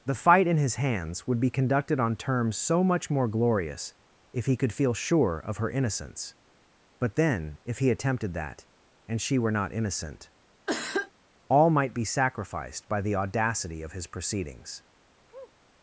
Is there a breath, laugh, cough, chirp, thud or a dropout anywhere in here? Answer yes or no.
yes